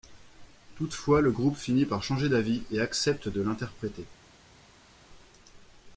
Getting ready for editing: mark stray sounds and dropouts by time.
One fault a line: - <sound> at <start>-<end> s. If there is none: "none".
none